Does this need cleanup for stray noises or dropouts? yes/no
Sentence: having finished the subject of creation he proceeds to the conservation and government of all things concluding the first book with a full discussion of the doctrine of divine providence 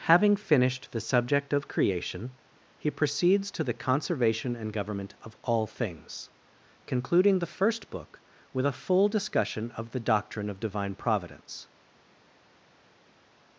no